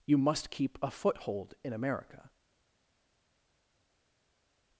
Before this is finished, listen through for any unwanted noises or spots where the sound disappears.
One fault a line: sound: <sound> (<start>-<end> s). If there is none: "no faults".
no faults